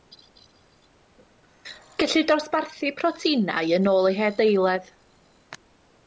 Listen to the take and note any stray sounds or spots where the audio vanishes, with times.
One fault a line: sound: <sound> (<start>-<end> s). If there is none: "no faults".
no faults